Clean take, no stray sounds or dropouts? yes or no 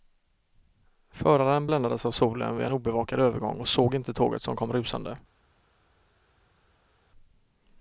yes